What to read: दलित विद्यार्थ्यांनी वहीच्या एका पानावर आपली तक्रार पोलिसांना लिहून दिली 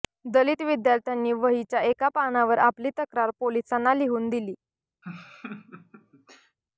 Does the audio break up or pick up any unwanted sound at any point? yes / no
yes